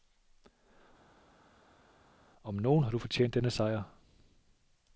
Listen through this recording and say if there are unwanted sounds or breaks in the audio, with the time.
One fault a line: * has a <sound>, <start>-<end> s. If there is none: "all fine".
all fine